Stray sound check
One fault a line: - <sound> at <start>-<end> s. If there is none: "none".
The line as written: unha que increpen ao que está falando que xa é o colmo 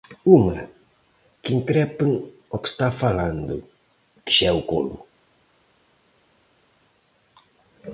none